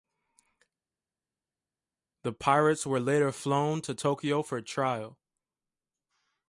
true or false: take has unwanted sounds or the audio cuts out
false